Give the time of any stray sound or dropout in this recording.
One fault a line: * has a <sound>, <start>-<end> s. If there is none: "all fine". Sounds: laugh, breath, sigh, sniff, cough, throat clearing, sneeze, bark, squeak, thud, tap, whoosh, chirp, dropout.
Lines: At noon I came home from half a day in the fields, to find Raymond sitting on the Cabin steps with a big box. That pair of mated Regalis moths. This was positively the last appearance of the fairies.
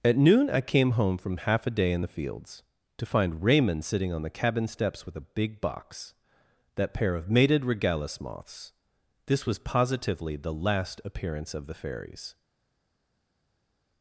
all fine